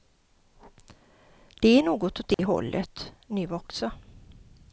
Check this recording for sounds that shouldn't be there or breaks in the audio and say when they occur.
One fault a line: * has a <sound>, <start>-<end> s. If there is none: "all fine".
* has a dropout, 2.3-2.4 s